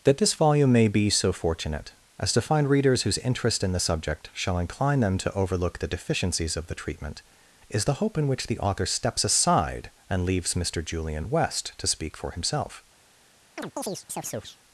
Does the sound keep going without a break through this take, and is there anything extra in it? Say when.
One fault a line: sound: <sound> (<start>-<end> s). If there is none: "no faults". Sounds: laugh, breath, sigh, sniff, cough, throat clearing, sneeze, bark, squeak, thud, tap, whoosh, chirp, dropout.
sound: chirp (13.6-14.6 s)